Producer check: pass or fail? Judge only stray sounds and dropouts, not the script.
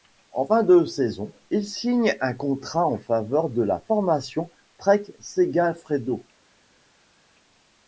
pass